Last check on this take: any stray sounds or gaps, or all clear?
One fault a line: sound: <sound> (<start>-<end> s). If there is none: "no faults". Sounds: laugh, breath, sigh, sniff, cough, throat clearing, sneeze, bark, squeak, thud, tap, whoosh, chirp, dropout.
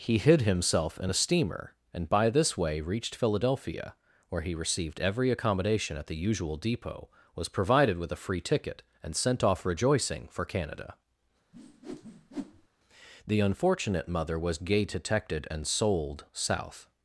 sound: whoosh (11.5-12.7 s)